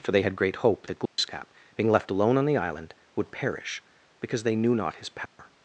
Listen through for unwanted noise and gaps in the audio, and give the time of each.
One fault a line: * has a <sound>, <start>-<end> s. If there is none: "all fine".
* has a dropout, 1.1-1.2 s
* has a dropout, 5.3-5.4 s